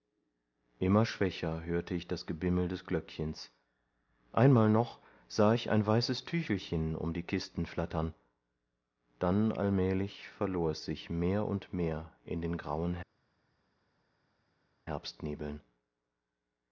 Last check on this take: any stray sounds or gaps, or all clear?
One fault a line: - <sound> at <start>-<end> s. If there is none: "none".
none